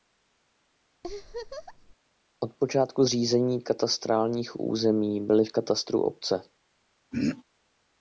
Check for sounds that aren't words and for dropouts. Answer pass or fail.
fail